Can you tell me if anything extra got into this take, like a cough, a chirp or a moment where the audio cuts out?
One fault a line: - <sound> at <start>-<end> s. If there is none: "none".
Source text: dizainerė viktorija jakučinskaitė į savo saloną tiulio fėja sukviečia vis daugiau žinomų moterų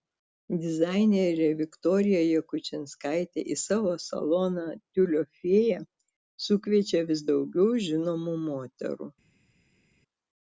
none